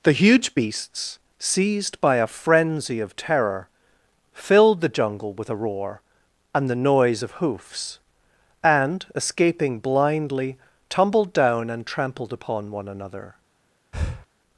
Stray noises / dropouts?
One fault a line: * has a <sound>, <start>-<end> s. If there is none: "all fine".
* has a breath, 13.9-14.3 s